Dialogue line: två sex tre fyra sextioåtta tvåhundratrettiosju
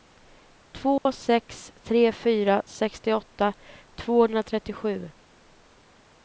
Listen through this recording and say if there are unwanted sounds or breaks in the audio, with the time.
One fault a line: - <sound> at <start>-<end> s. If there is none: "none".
- dropout at 1.0-1.1 s